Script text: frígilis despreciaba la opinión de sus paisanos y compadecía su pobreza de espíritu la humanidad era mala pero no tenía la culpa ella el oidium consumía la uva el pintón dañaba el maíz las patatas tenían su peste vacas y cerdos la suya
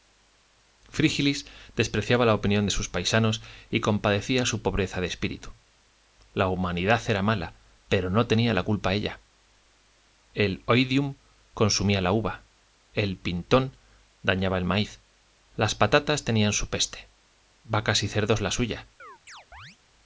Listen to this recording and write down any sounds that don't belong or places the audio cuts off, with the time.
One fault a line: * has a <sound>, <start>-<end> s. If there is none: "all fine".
* has a chirp, 19.0-19.8 s